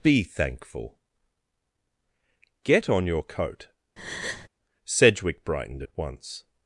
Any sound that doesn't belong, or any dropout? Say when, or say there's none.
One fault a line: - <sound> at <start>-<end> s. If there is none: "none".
- breath at 4.0-4.5 s